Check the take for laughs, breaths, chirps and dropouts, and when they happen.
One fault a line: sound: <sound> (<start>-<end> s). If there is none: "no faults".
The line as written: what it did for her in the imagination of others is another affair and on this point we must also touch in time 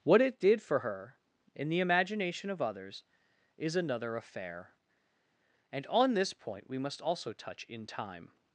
no faults